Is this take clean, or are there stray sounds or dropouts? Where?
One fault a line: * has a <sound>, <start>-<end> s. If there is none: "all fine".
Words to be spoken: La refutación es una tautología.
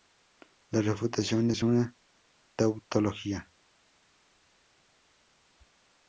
all fine